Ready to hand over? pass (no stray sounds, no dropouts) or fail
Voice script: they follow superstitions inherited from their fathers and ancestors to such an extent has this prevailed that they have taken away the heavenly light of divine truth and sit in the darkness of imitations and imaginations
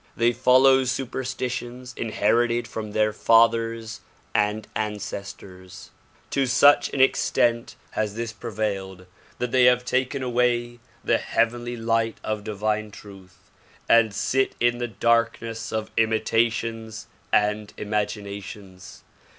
pass